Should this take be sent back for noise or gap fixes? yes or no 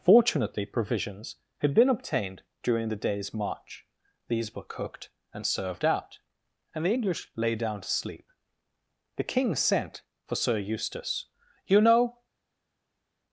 no